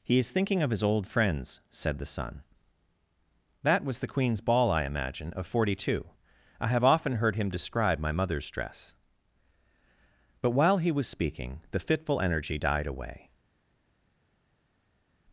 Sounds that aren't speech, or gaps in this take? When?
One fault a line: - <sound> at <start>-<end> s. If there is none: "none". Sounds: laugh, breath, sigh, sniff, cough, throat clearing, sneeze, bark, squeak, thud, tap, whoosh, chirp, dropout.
none